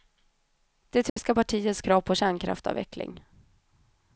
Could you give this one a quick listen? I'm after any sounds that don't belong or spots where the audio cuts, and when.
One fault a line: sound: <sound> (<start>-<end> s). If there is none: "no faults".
sound: dropout (1.1-1.2 s)